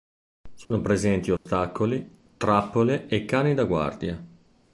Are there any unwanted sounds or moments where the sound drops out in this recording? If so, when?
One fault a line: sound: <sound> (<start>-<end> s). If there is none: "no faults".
sound: dropout (0.6-0.7 s)
sound: dropout (1.4-1.5 s)